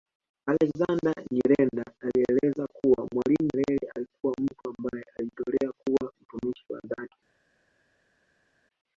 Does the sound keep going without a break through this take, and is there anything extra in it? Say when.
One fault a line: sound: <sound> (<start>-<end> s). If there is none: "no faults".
no faults